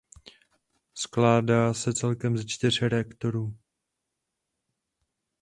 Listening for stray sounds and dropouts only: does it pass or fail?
pass